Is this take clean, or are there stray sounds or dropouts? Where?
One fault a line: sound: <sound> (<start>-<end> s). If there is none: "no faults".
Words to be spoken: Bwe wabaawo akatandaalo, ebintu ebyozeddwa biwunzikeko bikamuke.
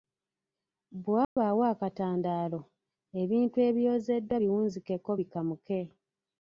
sound: dropout (1.2-1.4 s)